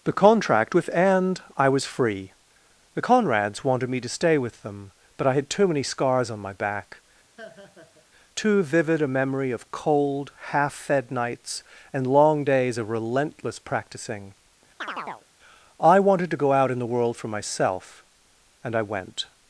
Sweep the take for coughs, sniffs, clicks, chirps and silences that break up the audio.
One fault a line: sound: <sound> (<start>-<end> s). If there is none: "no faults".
sound: laugh (7.4-8.1 s)
sound: chirp (14.8-15.3 s)